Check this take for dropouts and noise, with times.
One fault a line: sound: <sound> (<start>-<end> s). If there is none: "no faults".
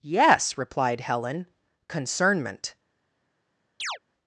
sound: chirp (3.8-4.0 s)